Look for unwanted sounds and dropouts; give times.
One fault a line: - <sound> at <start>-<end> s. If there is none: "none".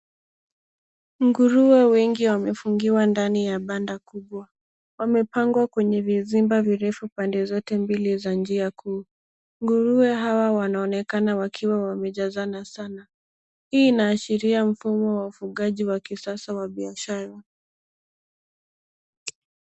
none